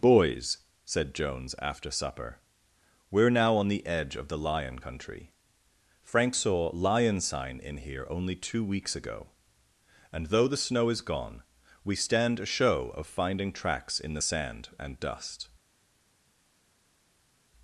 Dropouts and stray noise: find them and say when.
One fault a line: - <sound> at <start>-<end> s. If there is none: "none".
none